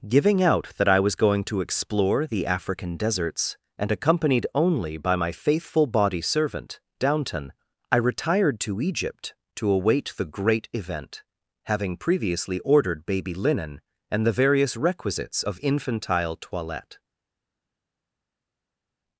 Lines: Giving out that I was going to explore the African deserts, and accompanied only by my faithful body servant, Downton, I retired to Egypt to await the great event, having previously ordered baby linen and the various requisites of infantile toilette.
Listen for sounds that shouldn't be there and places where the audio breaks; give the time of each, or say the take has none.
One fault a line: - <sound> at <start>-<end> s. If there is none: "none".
none